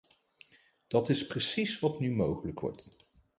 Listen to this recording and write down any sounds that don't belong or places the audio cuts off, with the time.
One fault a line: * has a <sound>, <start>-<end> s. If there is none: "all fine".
all fine